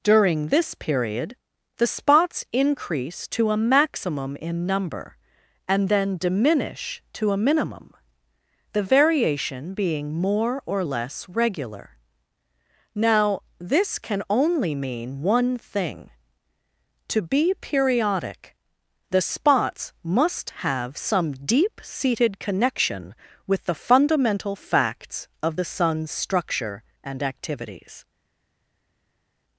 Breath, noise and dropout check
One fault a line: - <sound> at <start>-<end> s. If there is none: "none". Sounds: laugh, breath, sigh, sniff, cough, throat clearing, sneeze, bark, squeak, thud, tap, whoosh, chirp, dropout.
none